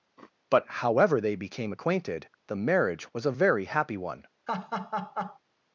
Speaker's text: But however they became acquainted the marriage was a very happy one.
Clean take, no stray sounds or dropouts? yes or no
no